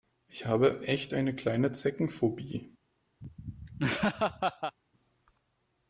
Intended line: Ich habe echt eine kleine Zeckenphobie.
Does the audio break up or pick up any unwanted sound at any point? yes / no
yes